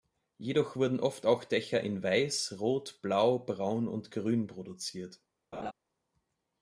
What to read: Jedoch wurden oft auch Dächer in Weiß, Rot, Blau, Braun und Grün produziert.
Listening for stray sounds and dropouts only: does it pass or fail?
fail